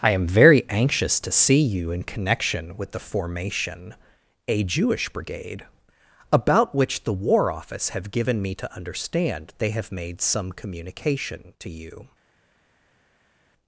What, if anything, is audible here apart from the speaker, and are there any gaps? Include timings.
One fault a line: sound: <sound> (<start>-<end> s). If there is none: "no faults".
no faults